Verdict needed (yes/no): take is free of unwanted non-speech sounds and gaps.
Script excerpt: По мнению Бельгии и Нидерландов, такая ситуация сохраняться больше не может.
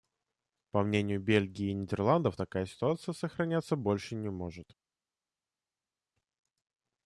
yes